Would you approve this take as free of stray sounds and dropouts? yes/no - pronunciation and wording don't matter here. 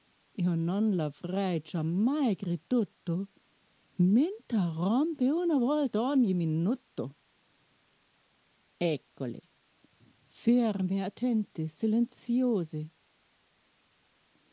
yes